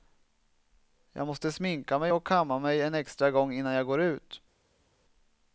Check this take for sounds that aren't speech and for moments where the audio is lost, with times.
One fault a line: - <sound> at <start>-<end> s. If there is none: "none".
none